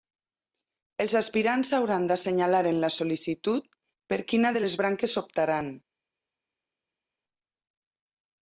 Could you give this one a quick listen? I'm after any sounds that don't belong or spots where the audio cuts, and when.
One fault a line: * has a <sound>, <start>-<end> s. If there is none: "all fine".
all fine